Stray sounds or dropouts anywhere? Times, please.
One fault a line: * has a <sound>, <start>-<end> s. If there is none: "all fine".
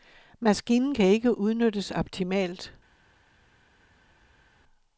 all fine